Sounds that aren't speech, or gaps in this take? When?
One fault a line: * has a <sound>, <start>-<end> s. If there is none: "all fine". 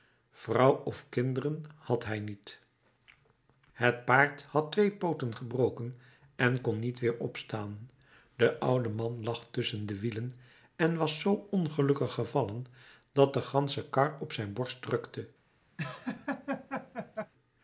* has a laugh, 15.8-17.3 s